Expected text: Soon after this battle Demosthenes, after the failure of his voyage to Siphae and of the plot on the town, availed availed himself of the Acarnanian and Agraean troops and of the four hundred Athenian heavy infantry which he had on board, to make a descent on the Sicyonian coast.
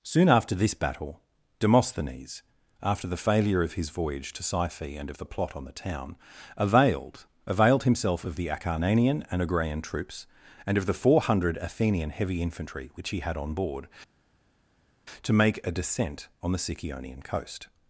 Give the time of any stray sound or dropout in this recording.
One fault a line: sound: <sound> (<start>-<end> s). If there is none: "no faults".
no faults